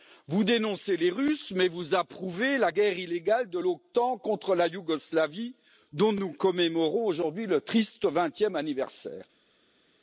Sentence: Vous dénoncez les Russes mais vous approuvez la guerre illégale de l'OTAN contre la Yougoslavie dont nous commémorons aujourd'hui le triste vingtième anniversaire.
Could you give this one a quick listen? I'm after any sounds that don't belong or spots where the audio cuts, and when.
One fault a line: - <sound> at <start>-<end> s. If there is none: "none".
none